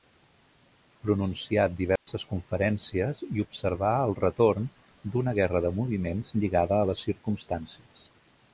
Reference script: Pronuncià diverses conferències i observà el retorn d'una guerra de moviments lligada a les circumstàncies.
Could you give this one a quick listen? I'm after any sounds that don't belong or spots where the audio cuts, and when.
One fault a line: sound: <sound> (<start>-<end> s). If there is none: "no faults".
sound: dropout (2.0-2.1 s)